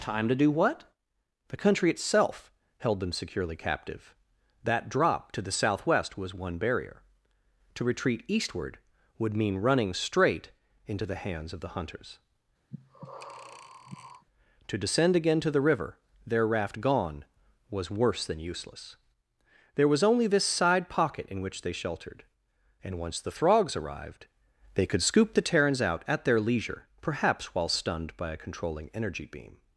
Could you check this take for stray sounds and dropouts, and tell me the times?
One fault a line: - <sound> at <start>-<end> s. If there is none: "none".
- breath at 12.7-14.3 s